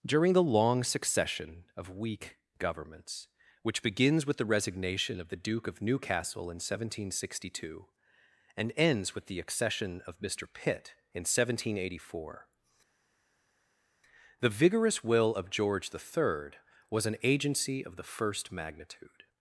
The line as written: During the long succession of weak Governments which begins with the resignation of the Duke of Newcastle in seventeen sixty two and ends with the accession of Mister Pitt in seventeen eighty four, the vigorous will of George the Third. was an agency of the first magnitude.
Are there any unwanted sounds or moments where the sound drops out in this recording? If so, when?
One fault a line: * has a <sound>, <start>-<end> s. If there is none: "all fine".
all fine